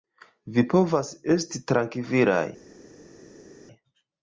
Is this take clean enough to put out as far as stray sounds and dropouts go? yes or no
yes